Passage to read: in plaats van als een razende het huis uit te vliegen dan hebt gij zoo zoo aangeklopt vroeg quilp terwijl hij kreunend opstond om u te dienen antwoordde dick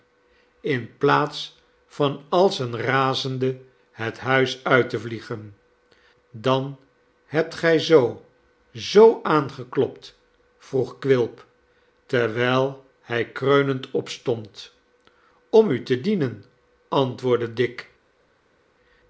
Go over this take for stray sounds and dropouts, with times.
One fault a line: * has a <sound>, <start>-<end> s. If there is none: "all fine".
all fine